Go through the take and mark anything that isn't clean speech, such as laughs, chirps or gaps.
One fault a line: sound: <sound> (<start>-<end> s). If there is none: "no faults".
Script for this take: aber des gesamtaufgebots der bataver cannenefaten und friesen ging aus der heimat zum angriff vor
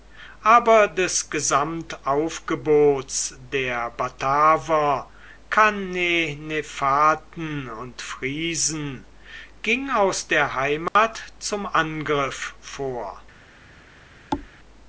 sound: dropout (10.9-11.0 s)
sound: thud (14.3-14.5 s)